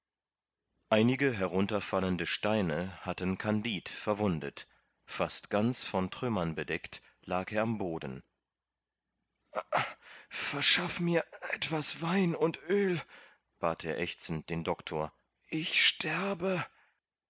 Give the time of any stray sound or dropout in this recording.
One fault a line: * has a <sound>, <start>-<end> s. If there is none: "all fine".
all fine